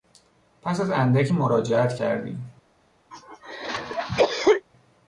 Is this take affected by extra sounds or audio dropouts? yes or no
yes